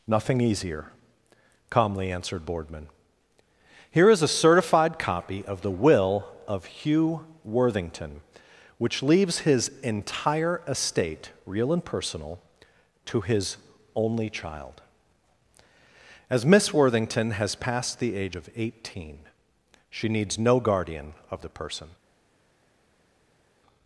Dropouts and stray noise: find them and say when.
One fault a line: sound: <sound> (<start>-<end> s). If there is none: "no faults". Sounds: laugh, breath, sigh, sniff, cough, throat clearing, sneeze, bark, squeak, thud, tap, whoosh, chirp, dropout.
no faults